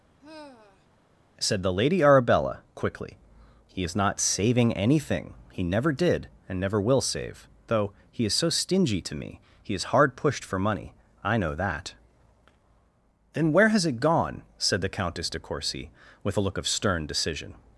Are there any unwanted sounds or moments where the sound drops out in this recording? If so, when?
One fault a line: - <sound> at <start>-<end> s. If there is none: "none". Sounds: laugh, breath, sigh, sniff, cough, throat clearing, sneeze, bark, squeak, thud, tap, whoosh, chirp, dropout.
- sigh at 0.2-0.9 s